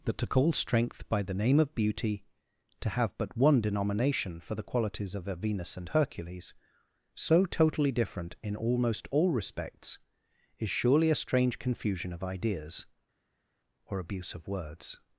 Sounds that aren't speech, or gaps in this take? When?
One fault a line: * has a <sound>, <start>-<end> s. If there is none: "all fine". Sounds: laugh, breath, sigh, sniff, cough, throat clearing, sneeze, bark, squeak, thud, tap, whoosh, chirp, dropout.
all fine